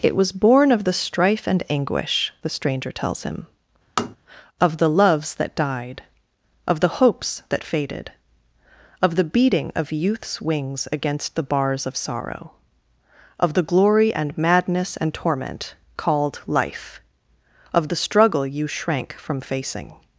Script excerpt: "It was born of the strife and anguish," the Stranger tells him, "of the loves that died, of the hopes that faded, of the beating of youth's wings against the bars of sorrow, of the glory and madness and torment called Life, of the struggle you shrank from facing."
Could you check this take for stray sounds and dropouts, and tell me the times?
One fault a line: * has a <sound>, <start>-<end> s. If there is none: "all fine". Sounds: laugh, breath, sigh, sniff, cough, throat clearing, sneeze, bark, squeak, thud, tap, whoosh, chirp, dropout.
* has a tap, 4.0-4.2 s